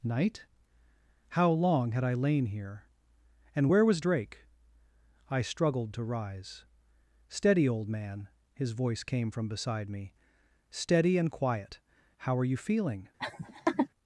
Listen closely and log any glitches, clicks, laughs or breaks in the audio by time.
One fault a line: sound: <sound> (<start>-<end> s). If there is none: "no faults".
sound: laugh (13.2-13.9 s)